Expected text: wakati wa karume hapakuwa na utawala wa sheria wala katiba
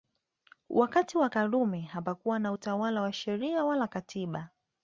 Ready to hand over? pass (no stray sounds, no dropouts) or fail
pass